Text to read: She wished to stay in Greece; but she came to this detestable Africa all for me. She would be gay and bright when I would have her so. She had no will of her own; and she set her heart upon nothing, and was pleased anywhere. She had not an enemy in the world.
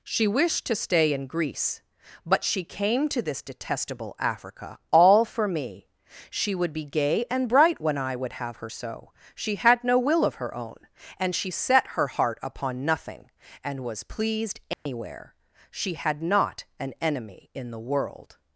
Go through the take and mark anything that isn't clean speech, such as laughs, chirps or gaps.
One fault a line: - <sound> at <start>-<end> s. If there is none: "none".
- dropout at 14.7-14.9 s